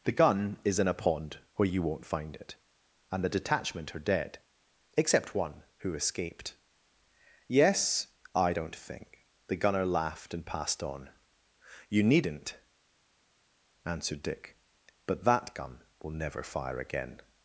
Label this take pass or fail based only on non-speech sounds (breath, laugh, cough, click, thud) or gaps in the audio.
pass